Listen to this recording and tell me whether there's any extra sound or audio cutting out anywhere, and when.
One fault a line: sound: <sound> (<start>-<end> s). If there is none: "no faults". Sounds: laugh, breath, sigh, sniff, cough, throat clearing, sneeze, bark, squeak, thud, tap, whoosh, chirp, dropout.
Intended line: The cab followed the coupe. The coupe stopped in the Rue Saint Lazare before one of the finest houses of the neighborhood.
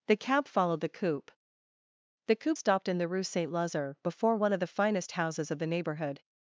no faults